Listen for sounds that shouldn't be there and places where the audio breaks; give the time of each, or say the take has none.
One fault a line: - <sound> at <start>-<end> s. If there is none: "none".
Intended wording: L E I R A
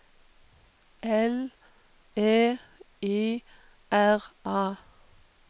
none